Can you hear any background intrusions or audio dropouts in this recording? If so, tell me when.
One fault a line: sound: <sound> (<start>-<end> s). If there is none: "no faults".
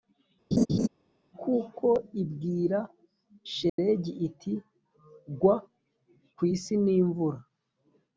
sound: laugh (0.5-0.9 s)
sound: dropout (3.7-3.8 s)